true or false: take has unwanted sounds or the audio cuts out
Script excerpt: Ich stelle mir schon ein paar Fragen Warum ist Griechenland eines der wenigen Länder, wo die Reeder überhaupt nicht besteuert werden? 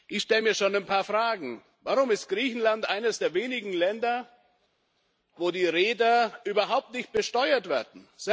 false